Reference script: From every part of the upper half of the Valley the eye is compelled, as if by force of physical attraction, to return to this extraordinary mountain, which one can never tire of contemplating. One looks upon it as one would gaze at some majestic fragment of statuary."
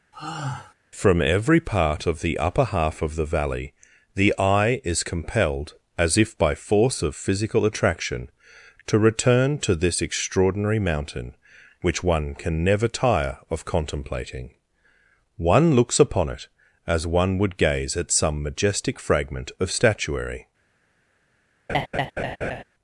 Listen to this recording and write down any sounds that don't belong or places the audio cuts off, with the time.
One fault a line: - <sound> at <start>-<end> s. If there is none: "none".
- sigh at 0.1-0.7 s
- laugh at 21.7-22.6 s